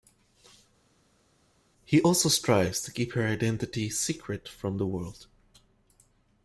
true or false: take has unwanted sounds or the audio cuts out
false